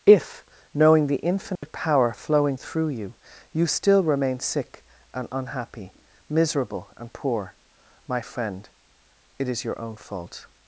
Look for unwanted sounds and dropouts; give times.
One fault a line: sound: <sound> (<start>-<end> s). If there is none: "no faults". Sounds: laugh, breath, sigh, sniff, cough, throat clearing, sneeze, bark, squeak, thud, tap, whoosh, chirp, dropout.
sound: dropout (1.6-1.6 s)